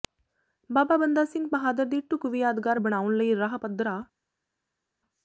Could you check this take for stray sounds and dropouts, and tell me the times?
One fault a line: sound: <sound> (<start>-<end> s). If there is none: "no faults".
no faults